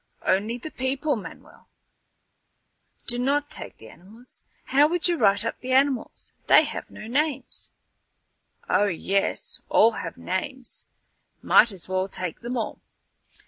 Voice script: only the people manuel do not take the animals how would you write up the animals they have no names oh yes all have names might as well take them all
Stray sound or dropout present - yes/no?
no